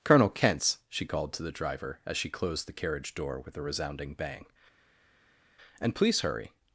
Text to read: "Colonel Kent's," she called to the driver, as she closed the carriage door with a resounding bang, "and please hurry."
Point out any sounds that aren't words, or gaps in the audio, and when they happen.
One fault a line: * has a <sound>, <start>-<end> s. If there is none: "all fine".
all fine